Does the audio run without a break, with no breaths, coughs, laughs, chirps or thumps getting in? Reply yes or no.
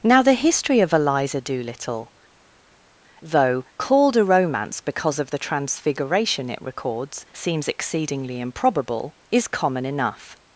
yes